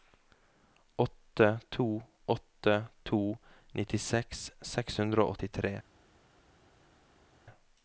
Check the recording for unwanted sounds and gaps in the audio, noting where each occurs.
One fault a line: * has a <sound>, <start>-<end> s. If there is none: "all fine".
all fine